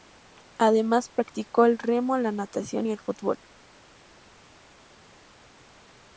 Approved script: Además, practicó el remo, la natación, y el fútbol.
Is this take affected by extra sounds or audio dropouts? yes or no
no